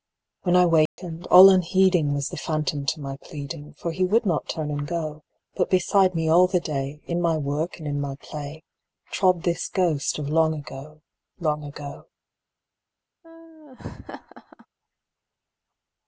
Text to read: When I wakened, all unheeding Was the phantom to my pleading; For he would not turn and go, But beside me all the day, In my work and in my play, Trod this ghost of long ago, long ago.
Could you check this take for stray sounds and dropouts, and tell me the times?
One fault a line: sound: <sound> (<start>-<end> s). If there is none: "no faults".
sound: dropout (0.9-1.0 s)
sound: laugh (13.2-14.7 s)